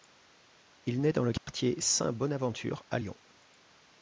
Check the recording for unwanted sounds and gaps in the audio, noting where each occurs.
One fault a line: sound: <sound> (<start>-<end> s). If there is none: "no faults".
sound: dropout (1.4-1.5 s)